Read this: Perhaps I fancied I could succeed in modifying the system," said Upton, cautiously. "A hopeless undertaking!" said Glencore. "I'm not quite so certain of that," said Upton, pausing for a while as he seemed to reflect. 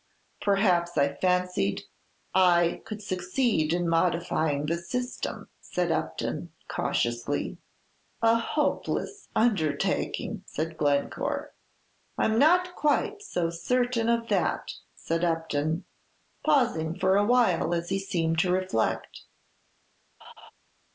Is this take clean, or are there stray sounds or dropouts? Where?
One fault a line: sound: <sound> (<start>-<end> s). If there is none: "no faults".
sound: laugh (20.2-20.5 s)